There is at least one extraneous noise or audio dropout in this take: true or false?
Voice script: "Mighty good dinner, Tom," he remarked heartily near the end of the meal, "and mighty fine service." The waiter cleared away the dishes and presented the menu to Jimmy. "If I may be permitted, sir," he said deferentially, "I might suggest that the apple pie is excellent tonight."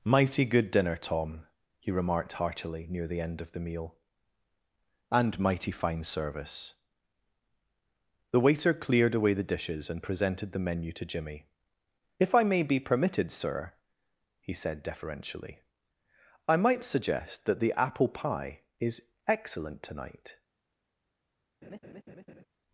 true